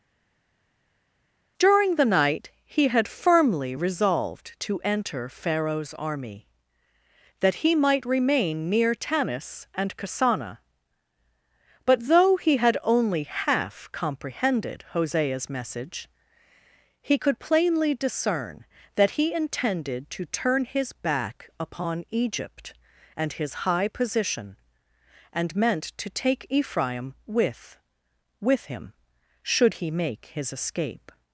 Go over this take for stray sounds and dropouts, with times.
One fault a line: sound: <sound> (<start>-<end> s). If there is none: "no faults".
no faults